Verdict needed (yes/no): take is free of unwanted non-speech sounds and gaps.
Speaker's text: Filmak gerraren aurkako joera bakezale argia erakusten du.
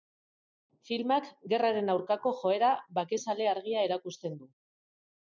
yes